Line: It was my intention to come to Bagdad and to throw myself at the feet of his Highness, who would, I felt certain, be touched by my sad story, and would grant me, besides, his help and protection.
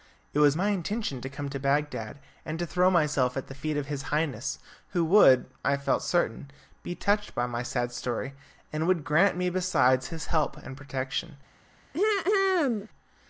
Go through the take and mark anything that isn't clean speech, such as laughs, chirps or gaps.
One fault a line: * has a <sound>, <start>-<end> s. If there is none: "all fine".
* has a throat clearing, 11.9-12.9 s